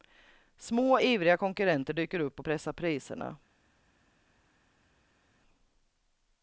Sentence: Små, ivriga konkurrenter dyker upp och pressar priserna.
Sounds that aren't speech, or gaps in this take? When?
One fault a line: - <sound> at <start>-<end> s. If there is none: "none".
none